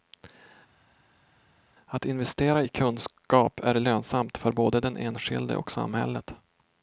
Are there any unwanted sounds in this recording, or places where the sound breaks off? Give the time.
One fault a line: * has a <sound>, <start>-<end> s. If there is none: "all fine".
all fine